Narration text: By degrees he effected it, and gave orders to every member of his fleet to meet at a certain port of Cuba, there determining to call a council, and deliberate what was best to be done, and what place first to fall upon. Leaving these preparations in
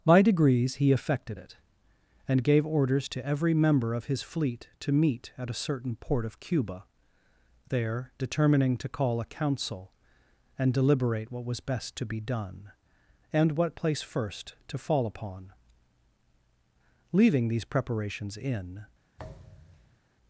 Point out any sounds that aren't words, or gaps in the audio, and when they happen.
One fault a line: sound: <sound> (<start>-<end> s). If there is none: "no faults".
sound: thud (19.2-20.0 s)